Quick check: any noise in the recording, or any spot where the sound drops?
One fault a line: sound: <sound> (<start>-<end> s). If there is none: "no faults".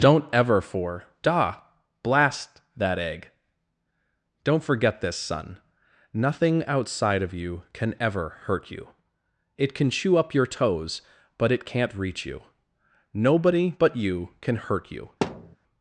sound: thud (15.2-15.6 s)